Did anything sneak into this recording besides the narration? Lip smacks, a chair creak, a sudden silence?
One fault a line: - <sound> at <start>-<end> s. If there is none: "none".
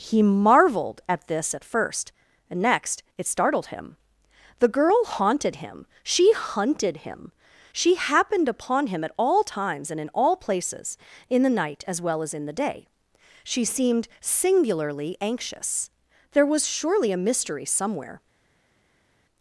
none